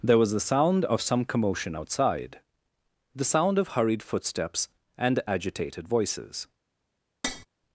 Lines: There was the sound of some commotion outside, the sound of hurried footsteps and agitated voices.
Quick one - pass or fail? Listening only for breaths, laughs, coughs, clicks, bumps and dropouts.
fail